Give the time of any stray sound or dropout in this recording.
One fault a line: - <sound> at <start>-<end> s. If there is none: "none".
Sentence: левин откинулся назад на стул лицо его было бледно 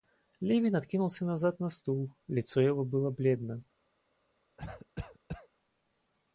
- cough at 4.6-5.5 s